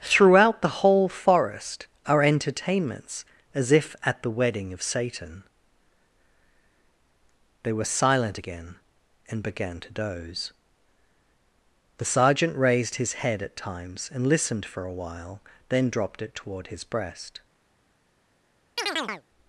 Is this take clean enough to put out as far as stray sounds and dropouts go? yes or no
no